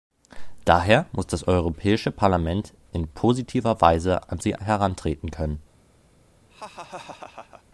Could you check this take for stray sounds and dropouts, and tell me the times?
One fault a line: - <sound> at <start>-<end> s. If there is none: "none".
- laugh at 6.5-7.6 s